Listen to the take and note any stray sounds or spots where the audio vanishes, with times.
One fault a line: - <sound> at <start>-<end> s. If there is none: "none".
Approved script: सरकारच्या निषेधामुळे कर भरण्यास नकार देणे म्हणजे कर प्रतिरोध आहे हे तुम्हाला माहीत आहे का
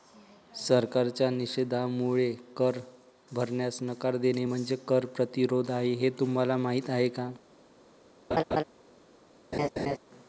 - laugh at 8.3-8.6 s
- laugh at 9.5-10.0 s